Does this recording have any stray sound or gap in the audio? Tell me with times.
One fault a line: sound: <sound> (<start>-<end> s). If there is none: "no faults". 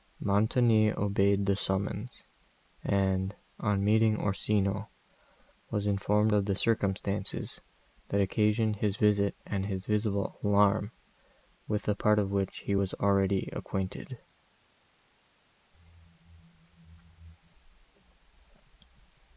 no faults